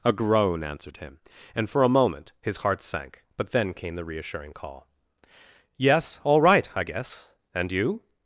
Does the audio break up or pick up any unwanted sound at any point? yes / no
no